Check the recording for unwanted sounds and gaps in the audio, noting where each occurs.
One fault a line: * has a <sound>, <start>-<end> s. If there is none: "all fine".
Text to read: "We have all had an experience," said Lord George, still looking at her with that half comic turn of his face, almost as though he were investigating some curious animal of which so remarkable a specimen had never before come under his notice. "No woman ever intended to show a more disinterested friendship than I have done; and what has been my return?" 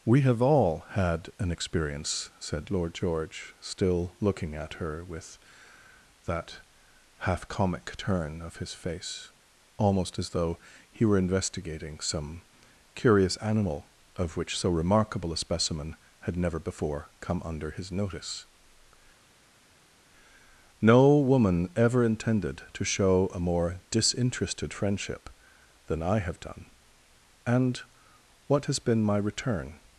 all fine